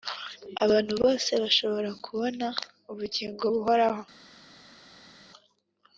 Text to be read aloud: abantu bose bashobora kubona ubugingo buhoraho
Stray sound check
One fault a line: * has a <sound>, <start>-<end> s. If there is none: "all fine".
all fine